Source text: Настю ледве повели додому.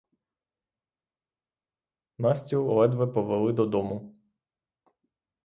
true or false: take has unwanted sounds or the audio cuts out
false